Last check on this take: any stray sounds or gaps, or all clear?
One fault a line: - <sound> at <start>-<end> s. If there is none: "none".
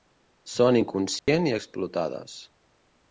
- dropout at 1.2-1.3 s